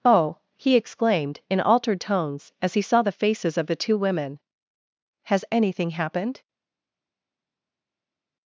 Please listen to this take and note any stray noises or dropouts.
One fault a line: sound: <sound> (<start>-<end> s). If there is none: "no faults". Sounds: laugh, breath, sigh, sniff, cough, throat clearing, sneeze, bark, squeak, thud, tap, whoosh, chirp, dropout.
no faults